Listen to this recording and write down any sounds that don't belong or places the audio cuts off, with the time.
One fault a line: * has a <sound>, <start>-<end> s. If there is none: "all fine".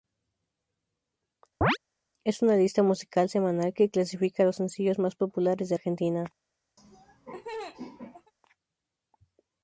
* has a chirp, 1.6-1.8 s
* has a laugh, 6.8-8.3 s